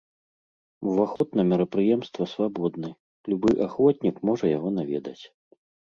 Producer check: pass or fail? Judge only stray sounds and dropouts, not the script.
fail